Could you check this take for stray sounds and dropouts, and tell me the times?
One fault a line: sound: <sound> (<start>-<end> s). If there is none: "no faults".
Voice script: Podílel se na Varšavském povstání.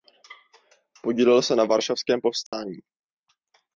sound: dropout (2.5-2.5 s)